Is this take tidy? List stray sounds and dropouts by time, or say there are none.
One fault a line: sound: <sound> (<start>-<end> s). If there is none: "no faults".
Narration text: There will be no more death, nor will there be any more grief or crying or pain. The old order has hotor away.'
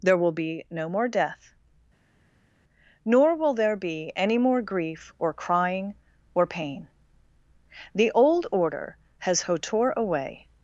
no faults